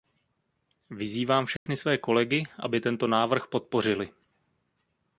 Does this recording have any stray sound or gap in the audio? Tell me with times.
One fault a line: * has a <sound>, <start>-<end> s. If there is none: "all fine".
* has a dropout, 1.6-1.7 s